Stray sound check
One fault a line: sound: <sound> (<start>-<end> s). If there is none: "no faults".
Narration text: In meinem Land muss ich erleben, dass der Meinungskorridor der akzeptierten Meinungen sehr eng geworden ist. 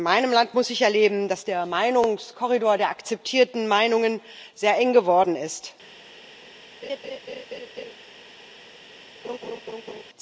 sound: laugh (6.8-7.9 s)
sound: laugh (9.2-10.0 s)